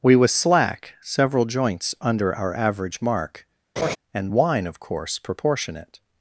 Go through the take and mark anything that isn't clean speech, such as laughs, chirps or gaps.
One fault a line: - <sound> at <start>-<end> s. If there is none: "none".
- laugh at 3.8-4.0 s